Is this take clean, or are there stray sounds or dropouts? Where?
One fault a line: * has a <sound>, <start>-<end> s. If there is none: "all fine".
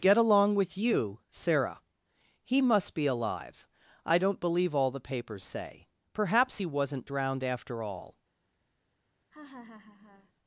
* has a laugh, 9.3-10.3 s